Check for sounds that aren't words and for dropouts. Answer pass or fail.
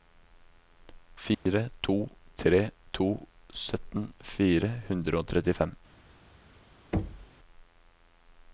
fail